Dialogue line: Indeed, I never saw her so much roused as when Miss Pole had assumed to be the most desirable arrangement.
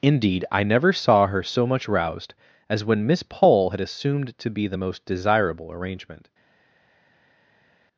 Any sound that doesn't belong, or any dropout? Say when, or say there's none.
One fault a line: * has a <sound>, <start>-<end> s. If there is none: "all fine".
all fine